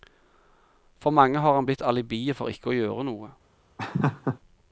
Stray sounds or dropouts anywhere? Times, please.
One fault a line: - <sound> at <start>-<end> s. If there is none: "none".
- laugh at 3.8-4.4 s